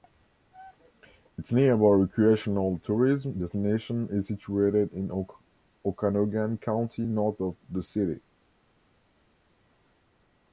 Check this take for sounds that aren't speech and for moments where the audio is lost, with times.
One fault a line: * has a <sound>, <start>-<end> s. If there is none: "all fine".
all fine